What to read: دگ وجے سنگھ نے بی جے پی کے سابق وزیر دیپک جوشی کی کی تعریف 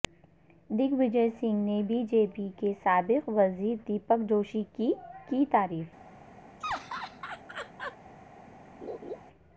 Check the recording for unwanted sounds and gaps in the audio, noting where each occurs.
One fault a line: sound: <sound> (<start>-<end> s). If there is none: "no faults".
sound: laugh (6.6-8.0 s)
sound: laugh (8.8-9.2 s)